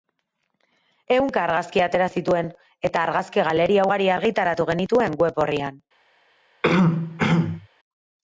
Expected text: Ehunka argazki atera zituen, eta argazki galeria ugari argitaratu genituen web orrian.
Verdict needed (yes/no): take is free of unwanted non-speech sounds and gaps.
no